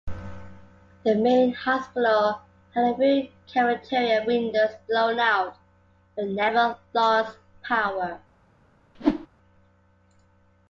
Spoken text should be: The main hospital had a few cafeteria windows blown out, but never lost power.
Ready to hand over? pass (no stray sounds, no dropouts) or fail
fail